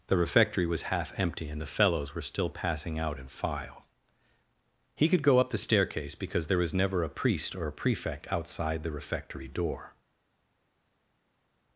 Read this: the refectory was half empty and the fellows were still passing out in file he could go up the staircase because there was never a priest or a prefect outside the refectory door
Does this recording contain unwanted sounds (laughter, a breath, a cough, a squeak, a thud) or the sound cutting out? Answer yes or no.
no